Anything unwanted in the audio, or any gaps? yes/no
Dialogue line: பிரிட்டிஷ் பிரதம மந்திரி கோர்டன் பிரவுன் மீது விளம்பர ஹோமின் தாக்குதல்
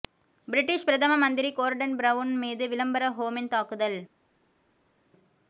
no